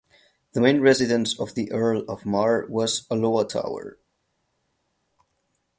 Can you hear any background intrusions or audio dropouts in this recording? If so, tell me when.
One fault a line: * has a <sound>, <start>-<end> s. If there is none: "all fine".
all fine